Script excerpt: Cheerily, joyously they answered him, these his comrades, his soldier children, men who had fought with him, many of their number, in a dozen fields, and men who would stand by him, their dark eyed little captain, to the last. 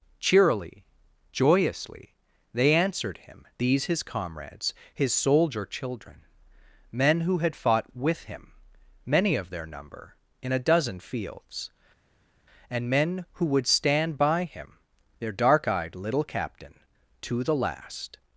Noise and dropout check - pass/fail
pass